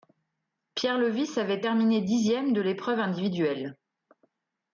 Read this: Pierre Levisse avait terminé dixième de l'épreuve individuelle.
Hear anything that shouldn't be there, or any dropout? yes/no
no